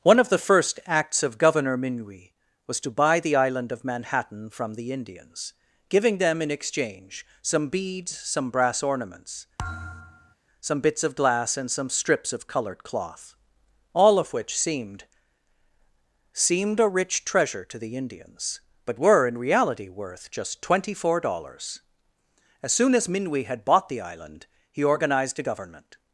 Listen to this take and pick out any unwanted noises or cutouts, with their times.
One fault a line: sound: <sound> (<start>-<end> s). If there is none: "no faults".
sound: thud (9.6-10.4 s)